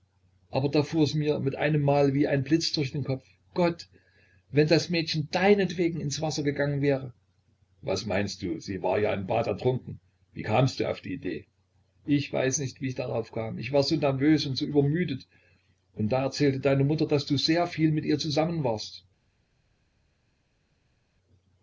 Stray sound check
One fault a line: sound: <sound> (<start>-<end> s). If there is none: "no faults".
no faults